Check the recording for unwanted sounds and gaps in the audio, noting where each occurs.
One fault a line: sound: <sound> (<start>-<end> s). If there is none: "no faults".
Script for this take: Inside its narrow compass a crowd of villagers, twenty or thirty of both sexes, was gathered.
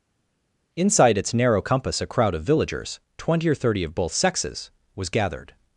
no faults